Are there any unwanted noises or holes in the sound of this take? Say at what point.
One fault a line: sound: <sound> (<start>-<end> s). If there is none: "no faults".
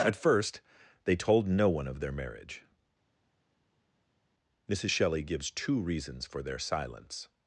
no faults